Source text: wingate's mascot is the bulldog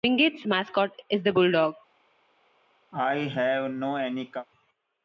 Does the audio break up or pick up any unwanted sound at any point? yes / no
yes